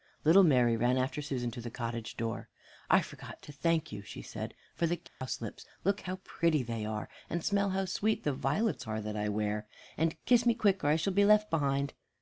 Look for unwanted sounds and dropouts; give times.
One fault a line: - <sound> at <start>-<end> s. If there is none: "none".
- dropout at 5.1-5.2 s